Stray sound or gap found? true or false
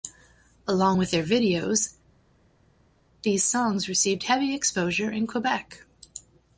false